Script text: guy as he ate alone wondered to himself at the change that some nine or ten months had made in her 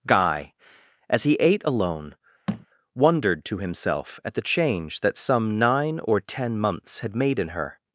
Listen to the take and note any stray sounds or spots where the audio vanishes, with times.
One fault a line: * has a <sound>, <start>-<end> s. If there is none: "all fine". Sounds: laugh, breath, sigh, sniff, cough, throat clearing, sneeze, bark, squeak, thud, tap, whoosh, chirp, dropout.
* has a thud, 2.5-2.7 s